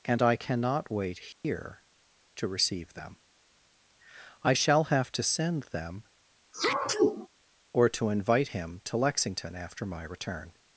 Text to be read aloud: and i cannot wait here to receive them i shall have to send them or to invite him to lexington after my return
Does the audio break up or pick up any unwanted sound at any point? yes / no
yes